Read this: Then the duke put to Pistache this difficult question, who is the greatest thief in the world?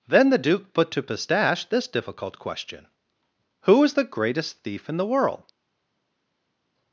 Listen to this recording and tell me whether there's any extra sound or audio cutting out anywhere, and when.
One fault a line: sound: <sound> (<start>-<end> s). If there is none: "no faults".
no faults